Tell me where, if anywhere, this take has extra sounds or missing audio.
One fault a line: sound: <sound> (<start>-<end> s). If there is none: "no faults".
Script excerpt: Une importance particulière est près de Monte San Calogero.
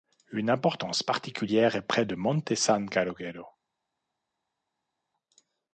no faults